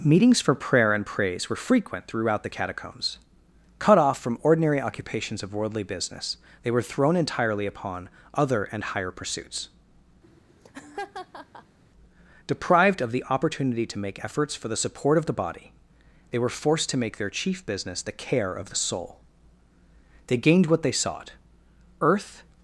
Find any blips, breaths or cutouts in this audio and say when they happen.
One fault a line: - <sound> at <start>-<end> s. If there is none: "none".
- laugh at 10.2-11.8 s